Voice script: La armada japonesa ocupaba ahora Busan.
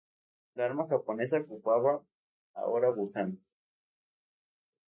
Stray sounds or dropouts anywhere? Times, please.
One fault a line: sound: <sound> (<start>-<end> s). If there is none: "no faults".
no faults